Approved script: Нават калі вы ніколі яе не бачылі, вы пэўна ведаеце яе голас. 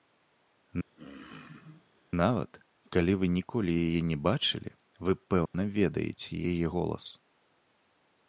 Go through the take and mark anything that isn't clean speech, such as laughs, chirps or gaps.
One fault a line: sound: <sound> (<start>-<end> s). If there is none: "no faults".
sound: throat clearing (1.0-1.9 s)
sound: dropout (5.5-5.5 s)